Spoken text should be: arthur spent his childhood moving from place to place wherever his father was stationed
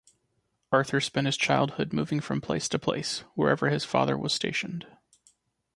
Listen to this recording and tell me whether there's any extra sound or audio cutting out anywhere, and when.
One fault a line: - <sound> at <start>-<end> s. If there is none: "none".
none